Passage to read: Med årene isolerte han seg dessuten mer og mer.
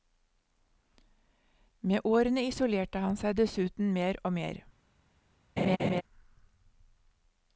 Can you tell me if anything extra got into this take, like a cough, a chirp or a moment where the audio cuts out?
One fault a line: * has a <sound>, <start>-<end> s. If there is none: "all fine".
* has a laugh, 5.6-6.0 s